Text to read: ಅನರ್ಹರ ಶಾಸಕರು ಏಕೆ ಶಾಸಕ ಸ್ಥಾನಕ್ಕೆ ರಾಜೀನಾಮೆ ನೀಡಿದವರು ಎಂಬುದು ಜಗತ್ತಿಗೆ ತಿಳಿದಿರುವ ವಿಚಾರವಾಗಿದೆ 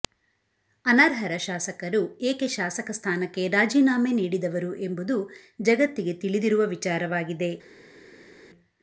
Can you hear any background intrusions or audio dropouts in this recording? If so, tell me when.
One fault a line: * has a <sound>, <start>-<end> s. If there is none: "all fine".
all fine